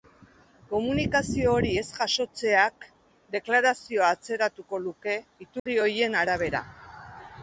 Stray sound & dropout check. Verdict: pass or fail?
fail